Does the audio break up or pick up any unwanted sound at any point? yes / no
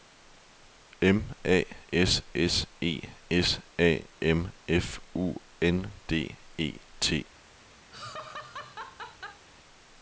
yes